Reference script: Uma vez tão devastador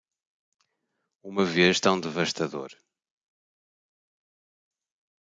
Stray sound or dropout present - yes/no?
no